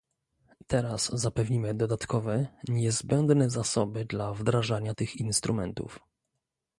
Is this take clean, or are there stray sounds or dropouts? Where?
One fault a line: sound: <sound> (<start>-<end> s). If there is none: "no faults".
no faults